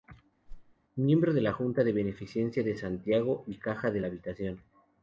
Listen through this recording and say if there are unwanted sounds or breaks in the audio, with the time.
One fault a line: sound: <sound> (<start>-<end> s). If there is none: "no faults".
sound: whoosh (0.5-0.8 s)